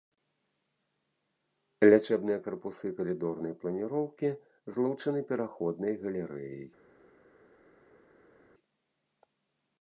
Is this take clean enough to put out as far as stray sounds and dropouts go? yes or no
yes